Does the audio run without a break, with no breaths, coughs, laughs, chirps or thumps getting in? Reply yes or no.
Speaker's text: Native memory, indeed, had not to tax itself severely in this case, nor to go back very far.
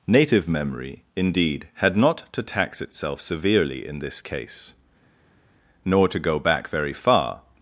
yes